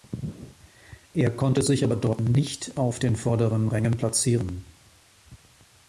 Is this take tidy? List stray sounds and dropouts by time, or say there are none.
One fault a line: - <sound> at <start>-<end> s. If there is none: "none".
none